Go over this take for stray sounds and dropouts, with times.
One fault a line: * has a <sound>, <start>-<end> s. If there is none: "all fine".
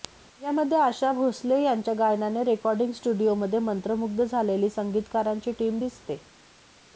all fine